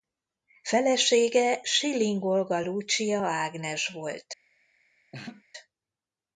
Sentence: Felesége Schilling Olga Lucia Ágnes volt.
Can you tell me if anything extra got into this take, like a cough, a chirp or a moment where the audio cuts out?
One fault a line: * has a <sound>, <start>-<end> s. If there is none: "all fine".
* has a laugh, 5.1-5.4 s